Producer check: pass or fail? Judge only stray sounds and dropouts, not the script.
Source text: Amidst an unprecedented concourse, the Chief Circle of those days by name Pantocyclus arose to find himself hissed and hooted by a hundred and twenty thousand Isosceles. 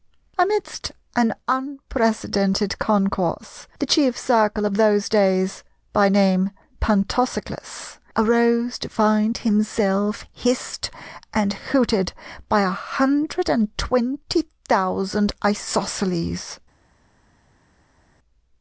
pass